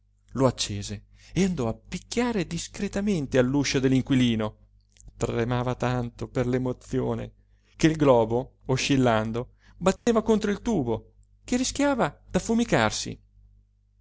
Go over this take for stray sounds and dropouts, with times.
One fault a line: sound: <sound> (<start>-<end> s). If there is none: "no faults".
sound: dropout (10.0-10.1 s)